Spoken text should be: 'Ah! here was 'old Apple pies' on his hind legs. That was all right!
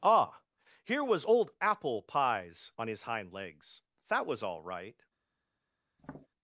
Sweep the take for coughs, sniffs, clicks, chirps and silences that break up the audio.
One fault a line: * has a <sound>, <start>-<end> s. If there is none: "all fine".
* has a tap, 6.0-6.3 s